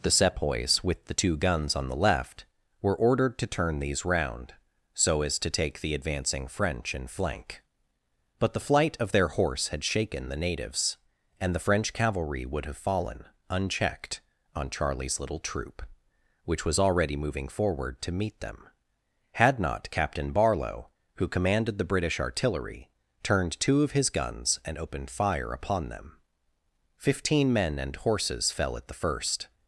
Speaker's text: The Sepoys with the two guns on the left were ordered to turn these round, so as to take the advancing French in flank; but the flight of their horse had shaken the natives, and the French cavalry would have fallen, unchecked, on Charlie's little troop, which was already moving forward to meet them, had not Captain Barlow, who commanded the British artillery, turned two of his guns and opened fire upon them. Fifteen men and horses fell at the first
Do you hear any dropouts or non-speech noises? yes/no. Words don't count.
no